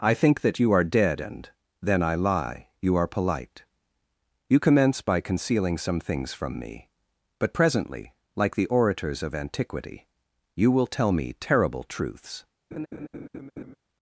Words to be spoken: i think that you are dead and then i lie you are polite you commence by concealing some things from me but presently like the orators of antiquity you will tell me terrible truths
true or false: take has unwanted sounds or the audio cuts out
true